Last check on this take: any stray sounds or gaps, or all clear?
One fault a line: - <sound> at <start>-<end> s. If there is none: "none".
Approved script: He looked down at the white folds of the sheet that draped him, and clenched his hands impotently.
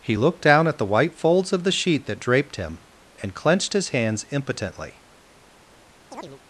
- chirp at 6.1-6.4 s